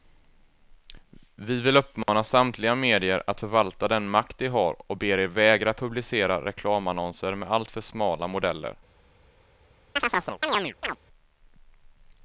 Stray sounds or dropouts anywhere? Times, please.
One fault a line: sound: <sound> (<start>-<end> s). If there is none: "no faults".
sound: dropout (2.0-2.1 s)
sound: chirp (10.0-11.0 s)